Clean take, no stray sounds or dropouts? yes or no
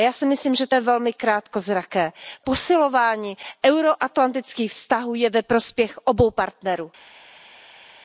yes